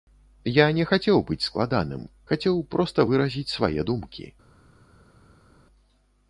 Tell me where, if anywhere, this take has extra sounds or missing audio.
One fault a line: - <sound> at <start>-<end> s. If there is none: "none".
none